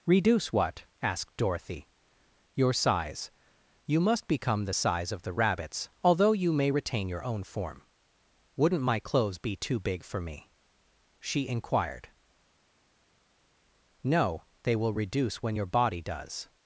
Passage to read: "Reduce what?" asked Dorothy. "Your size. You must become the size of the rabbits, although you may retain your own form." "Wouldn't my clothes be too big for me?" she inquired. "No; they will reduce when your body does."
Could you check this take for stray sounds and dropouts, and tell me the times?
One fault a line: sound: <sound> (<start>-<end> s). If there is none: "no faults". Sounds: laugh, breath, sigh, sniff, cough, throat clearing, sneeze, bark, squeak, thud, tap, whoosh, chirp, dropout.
no faults